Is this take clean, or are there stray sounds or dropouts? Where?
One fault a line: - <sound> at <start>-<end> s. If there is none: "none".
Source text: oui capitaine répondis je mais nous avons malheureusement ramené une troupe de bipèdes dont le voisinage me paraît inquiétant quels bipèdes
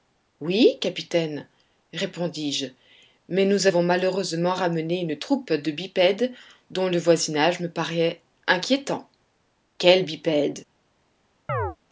- chirp at 11.5-11.8 s